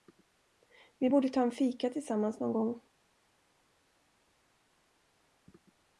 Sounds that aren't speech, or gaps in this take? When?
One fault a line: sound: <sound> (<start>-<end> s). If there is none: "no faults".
no faults